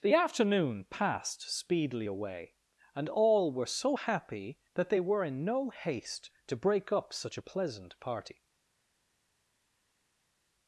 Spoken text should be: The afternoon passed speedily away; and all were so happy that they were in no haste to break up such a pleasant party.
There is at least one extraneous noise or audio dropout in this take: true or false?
false